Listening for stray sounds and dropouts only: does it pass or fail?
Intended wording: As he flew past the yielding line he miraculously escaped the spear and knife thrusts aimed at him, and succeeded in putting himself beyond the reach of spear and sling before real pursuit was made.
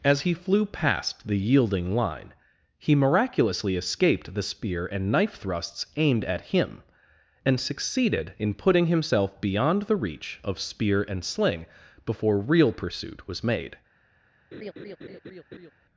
fail